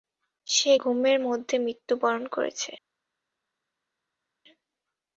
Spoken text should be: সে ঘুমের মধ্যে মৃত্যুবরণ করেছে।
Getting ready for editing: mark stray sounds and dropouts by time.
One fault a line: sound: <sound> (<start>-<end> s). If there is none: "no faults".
no faults